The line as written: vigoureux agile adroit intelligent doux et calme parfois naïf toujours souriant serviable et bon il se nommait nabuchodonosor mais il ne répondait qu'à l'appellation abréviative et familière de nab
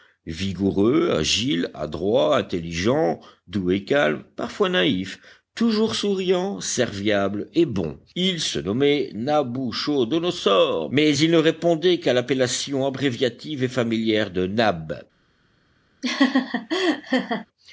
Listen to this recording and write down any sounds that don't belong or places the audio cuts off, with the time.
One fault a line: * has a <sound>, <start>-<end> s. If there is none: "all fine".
* has a laugh, 16.0-17.5 s